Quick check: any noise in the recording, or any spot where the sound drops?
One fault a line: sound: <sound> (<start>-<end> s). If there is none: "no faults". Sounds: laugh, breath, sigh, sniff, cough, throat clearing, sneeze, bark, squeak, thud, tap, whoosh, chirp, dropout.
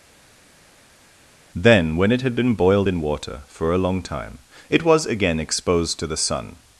no faults